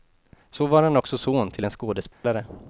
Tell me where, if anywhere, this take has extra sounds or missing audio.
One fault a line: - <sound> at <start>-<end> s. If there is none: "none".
- dropout at 2.1-2.2 s